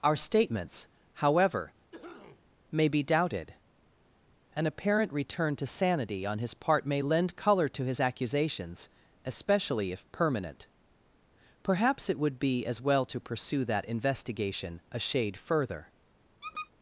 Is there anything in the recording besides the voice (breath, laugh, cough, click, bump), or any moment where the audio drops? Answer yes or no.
yes